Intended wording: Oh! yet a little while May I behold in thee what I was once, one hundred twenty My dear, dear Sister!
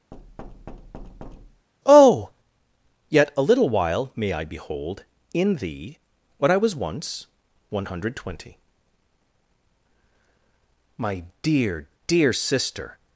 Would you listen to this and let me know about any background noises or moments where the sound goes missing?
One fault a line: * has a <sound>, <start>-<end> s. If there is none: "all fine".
* has a thud, 0.1-1.7 s